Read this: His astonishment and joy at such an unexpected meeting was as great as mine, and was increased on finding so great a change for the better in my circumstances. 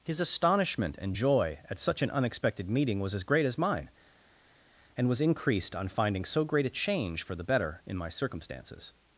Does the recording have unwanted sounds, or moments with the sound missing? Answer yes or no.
no